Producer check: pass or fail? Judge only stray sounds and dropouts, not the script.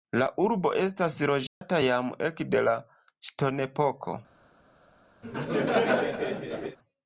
fail